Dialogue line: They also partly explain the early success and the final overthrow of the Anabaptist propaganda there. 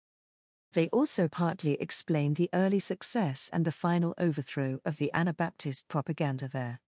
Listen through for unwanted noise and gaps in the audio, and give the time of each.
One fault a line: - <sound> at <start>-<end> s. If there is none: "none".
none